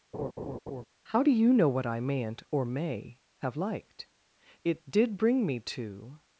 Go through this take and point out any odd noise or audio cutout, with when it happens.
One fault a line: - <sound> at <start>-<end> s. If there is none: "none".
- laugh at 0.1-0.8 s